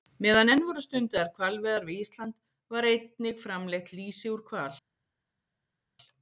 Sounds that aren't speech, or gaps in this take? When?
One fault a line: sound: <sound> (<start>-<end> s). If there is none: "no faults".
no faults